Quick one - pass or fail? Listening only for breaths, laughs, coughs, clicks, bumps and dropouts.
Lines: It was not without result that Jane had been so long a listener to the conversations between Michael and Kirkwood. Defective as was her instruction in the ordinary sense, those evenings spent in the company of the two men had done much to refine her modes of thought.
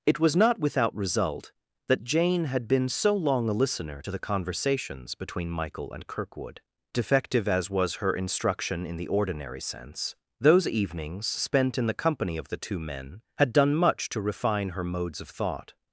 pass